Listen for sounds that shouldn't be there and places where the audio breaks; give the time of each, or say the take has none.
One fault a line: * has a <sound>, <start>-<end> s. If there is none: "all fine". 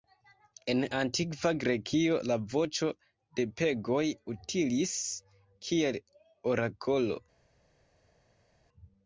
all fine